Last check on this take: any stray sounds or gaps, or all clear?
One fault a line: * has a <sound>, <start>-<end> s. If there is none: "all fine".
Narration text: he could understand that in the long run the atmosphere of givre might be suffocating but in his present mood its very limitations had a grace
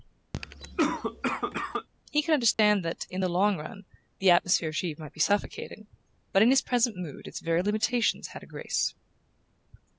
* has a cough, 0.3-1.9 s
* has a dropout, 2.5-2.6 s